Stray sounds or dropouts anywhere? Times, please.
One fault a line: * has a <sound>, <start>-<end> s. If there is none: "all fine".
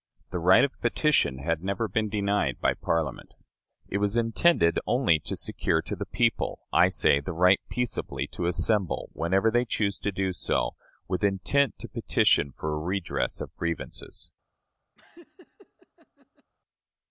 * has a laugh, 15.0-16.5 s